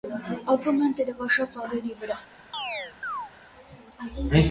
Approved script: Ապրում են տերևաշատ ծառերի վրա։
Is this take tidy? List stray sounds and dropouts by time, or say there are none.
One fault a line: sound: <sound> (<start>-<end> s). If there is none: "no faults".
sound: chirp (2.5-3.3 s)